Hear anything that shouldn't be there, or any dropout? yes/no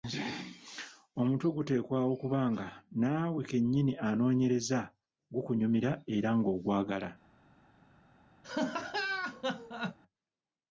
yes